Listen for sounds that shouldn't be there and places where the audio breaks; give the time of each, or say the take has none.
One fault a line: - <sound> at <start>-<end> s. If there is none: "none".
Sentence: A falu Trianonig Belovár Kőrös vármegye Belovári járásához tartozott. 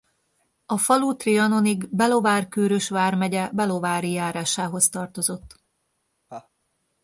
- laugh at 6.3-6.5 s